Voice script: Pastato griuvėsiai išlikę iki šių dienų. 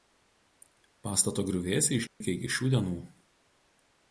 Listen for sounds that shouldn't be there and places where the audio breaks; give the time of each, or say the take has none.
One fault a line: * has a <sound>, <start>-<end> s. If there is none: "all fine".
* has a dropout, 2.1-2.2 s